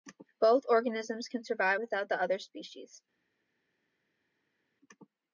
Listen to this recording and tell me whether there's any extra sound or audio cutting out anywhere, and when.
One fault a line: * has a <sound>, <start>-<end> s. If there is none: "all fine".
all fine